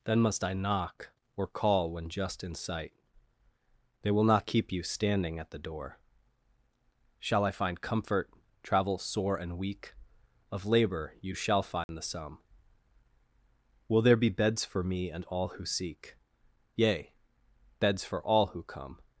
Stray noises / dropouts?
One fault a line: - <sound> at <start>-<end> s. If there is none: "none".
- dropout at 11.8-11.9 s